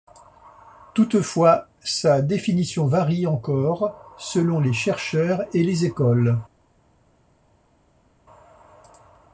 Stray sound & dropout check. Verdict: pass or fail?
pass